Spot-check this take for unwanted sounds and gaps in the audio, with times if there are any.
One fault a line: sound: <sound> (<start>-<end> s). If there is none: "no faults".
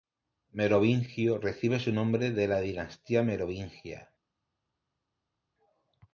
no faults